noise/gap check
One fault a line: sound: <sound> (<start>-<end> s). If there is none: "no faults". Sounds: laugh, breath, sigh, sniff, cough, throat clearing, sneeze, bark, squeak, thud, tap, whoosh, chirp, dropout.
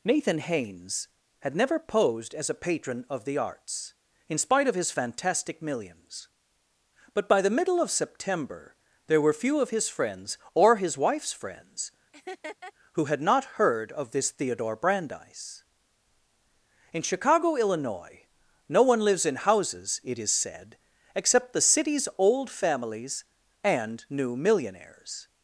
sound: laugh (12.1-12.7 s)